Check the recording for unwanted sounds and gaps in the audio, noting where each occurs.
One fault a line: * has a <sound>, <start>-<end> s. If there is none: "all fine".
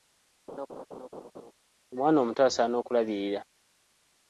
* has a laugh, 0.5-1.5 s